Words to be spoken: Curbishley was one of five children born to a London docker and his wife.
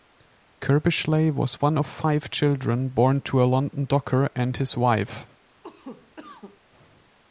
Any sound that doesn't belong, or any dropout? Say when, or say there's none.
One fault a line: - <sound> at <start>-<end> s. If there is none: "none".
- cough at 5.6-6.6 s